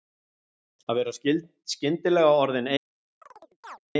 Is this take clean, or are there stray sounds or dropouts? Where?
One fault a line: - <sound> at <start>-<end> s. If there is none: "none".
- chirp at 3.2-3.8 s